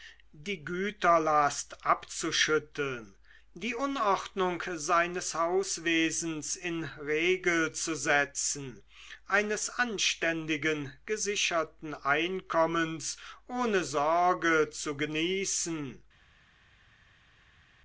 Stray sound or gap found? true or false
false